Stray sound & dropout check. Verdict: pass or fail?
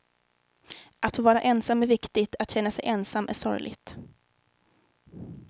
pass